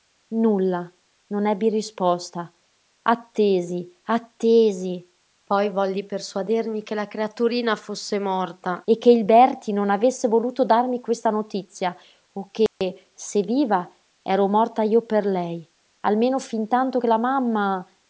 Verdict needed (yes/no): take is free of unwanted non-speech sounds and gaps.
no